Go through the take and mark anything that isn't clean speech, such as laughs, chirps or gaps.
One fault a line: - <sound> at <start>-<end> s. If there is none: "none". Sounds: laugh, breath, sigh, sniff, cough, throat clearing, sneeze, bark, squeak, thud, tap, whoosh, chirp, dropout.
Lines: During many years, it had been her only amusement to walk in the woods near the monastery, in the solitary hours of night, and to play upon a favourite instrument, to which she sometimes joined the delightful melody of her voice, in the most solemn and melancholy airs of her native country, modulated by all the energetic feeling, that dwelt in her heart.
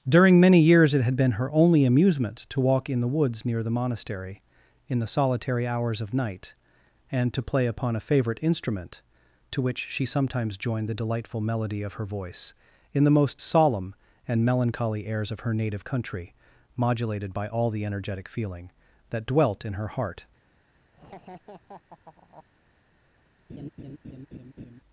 - laugh at 20.9-22.5 s
- laugh at 23.5-24.8 s